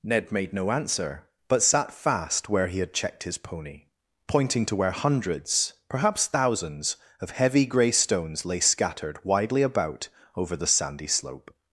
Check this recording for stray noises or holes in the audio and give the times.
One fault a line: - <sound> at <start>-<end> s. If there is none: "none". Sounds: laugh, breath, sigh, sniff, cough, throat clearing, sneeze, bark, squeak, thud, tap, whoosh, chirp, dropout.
none